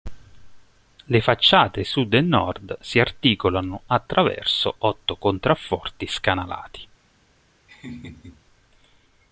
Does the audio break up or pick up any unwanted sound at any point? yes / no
yes